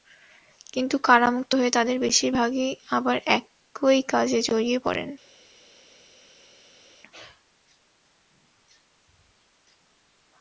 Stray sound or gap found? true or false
false